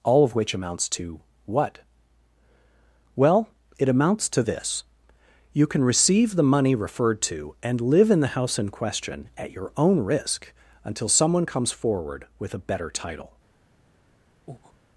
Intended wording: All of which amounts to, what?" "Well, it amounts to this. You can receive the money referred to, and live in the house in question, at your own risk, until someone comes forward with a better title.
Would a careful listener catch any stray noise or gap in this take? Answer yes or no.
yes